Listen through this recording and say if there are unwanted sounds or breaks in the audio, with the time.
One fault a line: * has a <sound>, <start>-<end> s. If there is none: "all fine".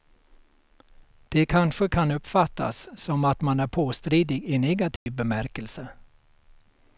* has a dropout, 5.0-5.1 s